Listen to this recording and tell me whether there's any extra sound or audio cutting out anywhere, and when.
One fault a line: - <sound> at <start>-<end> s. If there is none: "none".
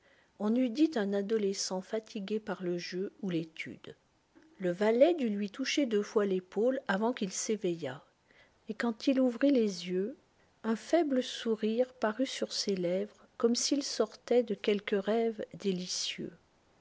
none